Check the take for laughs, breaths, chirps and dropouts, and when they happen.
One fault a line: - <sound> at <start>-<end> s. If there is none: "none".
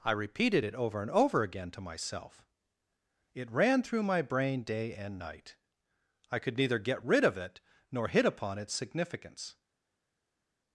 none